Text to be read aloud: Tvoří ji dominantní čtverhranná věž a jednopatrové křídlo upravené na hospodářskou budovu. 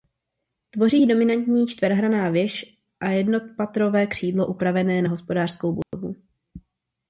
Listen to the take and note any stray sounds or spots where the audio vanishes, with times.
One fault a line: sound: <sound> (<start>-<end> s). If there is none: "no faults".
sound: dropout (5.8-5.9 s)